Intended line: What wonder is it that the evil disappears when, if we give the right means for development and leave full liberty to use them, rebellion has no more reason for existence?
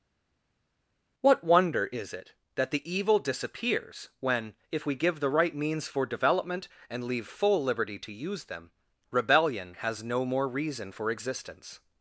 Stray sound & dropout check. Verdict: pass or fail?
pass